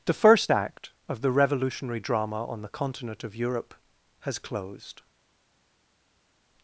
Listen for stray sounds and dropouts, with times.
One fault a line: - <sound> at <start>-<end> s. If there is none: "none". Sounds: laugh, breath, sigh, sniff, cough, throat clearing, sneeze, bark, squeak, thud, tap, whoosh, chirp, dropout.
none